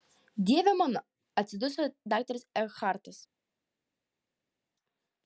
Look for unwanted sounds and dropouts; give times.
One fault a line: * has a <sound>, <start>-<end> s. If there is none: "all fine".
all fine